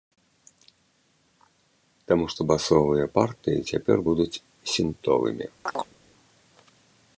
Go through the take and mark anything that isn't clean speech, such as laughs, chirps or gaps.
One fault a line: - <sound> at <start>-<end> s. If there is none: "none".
- chirp at 5.7-5.9 s